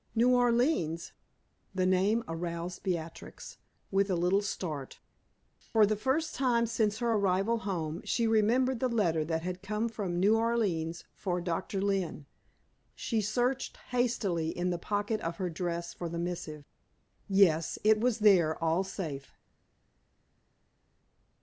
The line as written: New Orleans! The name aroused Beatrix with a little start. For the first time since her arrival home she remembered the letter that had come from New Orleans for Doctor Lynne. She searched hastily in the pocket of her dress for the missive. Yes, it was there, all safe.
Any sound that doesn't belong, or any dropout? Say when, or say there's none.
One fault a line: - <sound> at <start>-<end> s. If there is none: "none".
none